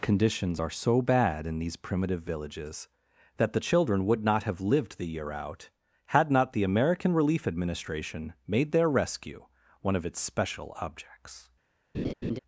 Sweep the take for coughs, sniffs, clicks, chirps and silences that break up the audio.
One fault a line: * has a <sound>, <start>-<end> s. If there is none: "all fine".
* has a laugh, 11.9-12.4 s